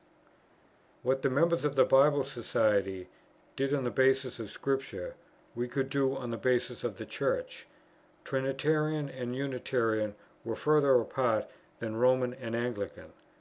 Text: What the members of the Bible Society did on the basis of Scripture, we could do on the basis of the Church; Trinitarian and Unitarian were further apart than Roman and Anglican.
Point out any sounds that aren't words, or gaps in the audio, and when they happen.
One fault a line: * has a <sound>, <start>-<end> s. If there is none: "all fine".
all fine